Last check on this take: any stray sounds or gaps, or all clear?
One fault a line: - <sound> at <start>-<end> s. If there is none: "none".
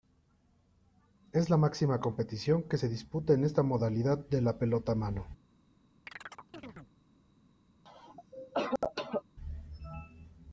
- chirp at 6.1-6.9 s
- cough at 7.8-9.2 s